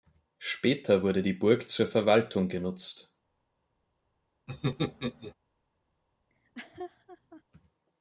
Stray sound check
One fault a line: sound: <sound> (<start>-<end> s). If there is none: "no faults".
sound: laugh (4.5-5.3 s)
sound: laugh (6.3-7.4 s)